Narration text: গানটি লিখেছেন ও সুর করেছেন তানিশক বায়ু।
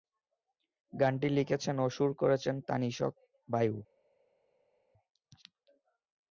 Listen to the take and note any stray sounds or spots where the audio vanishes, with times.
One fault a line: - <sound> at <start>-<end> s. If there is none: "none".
none